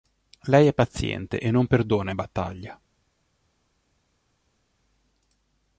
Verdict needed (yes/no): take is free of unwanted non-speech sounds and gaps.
yes